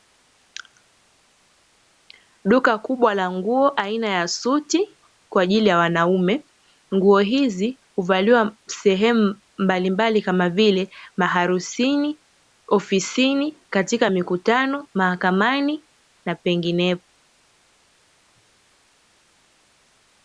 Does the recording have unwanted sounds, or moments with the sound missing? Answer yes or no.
no